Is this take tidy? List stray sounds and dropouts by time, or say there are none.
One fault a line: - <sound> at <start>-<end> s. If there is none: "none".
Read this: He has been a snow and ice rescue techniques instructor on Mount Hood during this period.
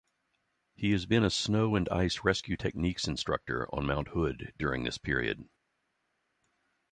none